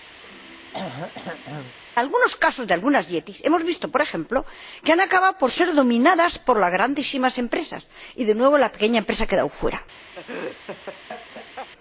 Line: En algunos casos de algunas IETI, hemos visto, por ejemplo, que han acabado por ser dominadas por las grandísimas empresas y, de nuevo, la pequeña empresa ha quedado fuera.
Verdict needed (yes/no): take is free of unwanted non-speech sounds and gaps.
no